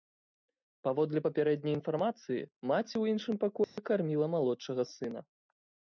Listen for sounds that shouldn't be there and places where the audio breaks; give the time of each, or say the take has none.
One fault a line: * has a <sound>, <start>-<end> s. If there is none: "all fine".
* has a dropout, 3.6-3.8 s